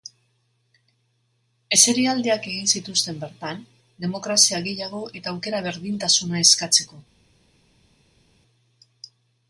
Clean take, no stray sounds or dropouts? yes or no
yes